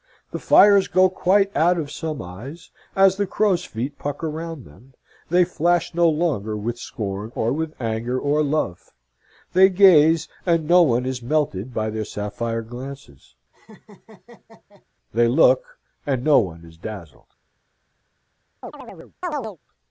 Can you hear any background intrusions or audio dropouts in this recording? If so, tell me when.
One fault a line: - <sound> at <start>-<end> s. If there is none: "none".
- laugh at 13.5-14.9 s
- chirp at 18.6-19.6 s